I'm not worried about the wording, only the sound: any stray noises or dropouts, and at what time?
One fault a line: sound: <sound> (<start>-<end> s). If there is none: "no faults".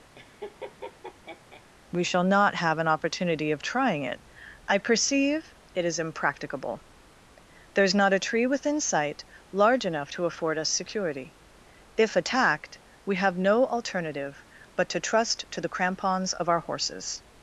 sound: laugh (0.2-1.6 s)